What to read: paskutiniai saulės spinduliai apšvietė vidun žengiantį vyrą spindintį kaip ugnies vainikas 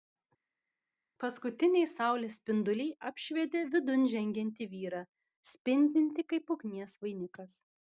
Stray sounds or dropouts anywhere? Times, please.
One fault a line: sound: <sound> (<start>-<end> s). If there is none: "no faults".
no faults